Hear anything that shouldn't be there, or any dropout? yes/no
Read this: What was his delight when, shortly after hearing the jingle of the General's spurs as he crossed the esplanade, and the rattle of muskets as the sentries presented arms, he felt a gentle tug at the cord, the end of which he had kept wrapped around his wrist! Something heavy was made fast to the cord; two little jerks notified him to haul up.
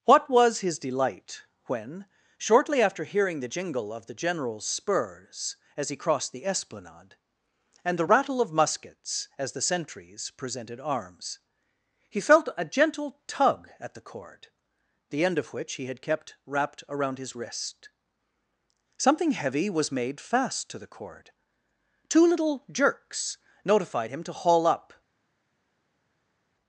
no